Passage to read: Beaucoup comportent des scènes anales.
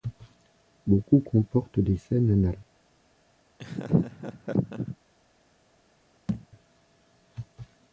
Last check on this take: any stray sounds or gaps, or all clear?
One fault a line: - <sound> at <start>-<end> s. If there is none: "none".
- laugh at 3.6-5.0 s
- thud at 6.3-6.5 s